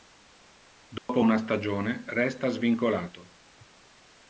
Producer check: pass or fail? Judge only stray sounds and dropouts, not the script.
fail